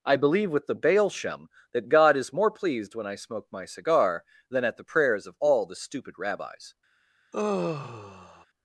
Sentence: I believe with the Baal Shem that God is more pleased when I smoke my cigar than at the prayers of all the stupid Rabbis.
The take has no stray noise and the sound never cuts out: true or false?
false